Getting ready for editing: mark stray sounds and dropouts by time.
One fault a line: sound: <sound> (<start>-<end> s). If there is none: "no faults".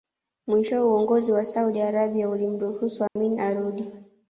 sound: dropout (3.1-3.2 s)